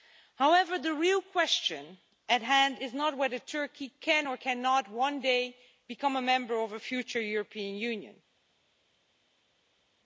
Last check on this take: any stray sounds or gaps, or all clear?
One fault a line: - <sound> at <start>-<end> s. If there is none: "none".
none